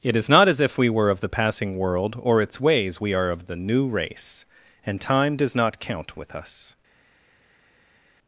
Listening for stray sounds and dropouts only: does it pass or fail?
pass